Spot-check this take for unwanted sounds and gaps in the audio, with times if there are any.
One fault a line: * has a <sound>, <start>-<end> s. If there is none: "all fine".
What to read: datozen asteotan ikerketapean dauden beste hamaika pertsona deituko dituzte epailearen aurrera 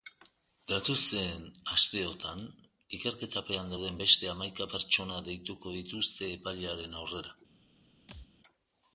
* has a thud, 8.1-8.3 s